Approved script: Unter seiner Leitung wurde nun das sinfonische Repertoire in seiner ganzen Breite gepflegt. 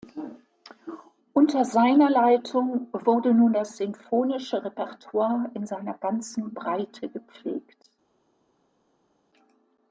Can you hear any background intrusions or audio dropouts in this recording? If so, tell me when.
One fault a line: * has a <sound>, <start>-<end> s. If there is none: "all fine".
all fine